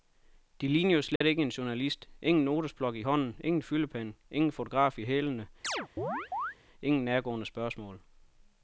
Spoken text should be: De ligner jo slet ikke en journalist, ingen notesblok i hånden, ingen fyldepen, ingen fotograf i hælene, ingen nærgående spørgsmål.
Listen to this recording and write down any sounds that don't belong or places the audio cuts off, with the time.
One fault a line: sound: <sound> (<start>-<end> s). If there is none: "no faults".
sound: dropout (1.2-1.2 s)
sound: chirp (5.6-6.6 s)